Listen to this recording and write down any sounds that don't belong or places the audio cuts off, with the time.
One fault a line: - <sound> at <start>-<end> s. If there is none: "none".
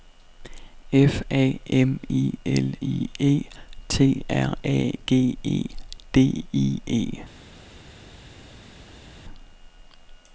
none